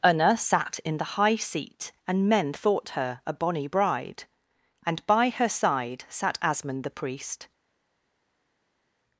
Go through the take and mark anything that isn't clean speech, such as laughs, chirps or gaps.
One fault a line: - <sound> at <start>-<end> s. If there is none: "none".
none